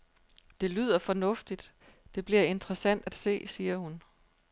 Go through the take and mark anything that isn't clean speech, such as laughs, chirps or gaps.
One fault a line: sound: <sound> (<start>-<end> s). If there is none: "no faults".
no faults